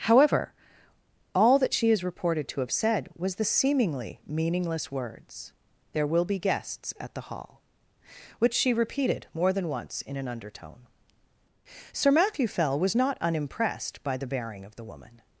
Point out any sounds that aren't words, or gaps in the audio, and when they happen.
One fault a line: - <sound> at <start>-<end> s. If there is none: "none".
none